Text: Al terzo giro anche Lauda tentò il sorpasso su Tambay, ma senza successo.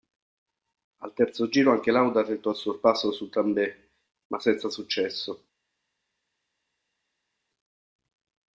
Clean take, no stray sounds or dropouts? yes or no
yes